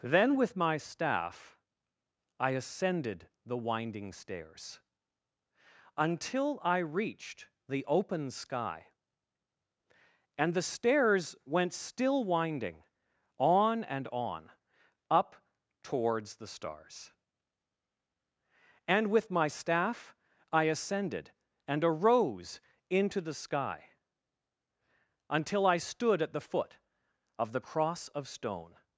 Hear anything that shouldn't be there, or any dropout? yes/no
no